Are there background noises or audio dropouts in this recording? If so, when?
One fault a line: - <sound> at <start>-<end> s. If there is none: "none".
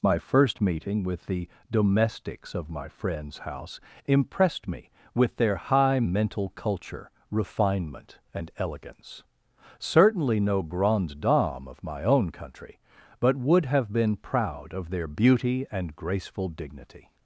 none